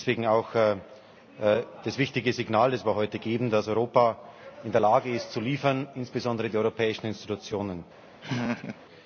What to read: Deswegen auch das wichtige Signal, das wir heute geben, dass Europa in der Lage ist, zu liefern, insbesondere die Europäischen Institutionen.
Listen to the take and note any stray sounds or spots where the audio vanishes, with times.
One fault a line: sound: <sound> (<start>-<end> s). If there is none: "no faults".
sound: laugh (8.2-8.8 s)